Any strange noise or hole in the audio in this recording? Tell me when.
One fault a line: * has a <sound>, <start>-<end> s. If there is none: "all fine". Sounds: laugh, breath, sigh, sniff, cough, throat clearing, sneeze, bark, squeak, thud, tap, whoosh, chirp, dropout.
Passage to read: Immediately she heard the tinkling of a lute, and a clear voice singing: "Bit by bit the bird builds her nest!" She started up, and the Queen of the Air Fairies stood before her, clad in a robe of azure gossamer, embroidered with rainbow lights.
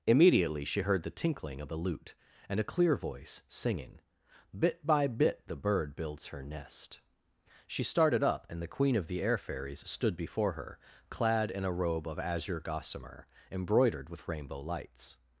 all fine